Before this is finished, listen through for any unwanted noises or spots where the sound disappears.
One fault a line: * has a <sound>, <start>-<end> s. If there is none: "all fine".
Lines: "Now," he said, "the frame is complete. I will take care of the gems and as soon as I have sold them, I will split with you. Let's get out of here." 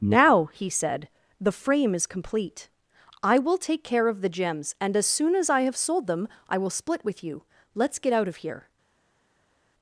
all fine